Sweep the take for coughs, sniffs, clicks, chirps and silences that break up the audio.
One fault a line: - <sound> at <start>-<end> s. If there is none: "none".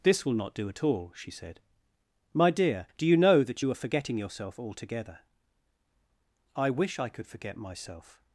none